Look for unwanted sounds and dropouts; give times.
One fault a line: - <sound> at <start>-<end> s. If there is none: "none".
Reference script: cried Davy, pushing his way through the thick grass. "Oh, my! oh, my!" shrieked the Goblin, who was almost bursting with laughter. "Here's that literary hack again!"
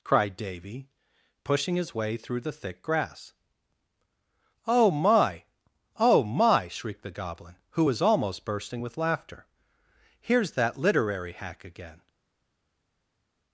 none